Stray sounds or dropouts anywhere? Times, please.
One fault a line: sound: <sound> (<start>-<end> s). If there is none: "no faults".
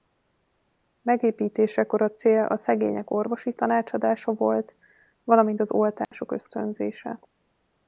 sound: dropout (6.0-6.1 s)